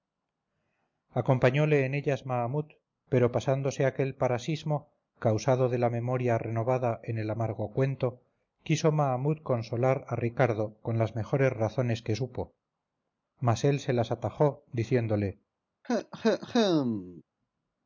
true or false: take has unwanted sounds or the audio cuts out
true